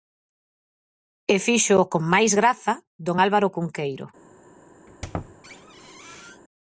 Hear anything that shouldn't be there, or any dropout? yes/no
yes